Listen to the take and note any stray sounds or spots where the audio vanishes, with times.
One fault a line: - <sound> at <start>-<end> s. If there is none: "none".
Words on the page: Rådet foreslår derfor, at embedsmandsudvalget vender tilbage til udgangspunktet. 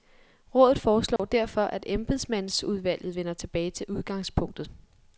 - dropout at 1.2-1.2 s